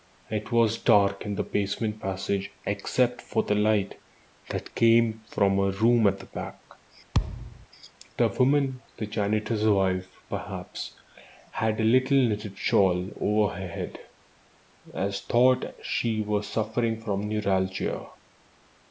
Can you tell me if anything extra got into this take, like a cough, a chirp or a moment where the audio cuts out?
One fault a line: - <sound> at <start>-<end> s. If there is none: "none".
- thud at 7.1-7.7 s